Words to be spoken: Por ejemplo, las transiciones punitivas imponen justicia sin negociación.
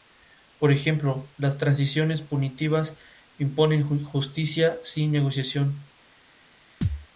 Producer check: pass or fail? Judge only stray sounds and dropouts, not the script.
fail